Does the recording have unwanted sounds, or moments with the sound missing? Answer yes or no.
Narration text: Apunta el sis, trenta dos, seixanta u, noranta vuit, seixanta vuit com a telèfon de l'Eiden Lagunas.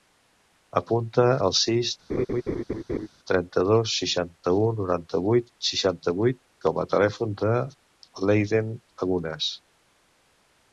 yes